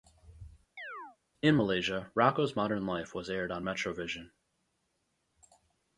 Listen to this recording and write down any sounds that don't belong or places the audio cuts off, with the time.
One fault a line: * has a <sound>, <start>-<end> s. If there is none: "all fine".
* has a chirp, 0.8-1.2 s